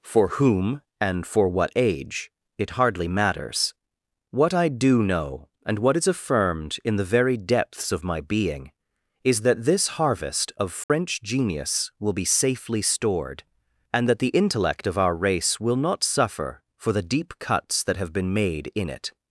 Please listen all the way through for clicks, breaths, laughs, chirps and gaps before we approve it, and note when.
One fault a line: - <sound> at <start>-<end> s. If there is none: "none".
- dropout at 10.8-10.9 s